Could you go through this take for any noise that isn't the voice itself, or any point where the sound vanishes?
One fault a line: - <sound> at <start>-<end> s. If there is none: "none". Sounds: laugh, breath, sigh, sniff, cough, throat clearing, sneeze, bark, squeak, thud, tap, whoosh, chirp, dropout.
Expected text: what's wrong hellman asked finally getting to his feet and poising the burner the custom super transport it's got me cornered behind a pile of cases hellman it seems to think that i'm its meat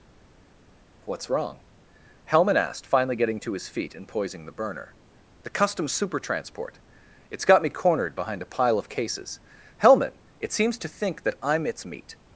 none